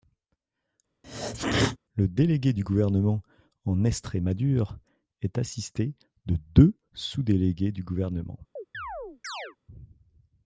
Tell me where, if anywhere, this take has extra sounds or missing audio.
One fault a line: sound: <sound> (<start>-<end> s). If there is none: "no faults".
sound: sneeze (1.0-1.8 s)
sound: chirp (8.6-9.6 s)